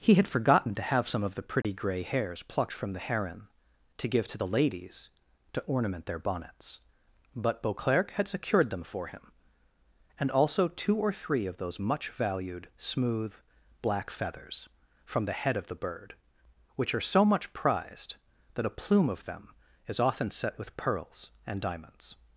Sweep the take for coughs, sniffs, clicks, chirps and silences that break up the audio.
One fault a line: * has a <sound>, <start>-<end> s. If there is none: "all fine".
* has a dropout, 1.6-1.6 s